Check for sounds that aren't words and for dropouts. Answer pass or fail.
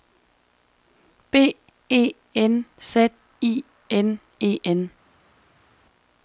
pass